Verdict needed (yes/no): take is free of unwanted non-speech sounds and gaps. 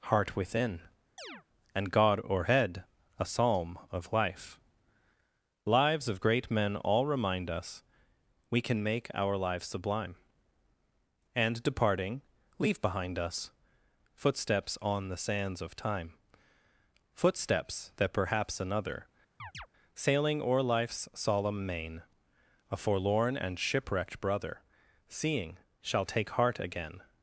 no